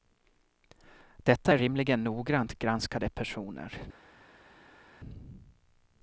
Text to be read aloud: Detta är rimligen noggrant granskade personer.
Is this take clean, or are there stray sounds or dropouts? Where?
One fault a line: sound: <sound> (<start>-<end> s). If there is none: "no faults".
no faults